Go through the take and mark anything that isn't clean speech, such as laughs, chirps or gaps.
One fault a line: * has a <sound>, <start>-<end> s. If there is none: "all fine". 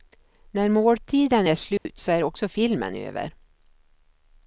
* has a dropout, 1.8-1.9 s